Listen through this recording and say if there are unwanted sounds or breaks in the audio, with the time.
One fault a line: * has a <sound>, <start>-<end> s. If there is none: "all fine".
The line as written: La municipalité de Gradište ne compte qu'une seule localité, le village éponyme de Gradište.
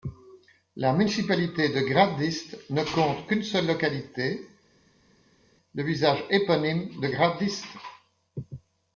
all fine